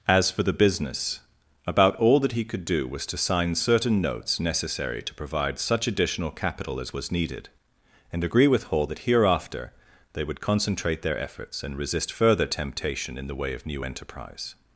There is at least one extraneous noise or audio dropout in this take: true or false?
false